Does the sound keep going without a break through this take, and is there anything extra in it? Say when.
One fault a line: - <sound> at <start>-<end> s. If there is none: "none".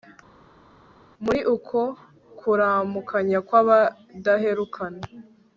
none